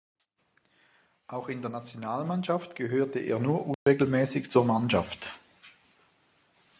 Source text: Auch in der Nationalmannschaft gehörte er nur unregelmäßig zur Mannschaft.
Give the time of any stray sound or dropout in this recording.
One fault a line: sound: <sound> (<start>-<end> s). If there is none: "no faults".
sound: dropout (3.7-3.9 s)